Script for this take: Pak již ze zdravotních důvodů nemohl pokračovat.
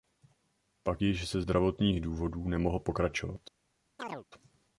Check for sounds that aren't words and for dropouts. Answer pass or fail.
fail